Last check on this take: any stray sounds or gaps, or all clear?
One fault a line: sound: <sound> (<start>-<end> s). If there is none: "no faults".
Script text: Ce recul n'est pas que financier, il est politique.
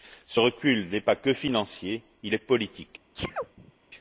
sound: sneeze (3.1-3.7 s)